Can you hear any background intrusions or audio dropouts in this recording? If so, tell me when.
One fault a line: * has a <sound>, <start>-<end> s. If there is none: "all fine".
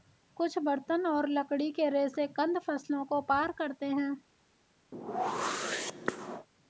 * has a whoosh, 4.9-6.5 s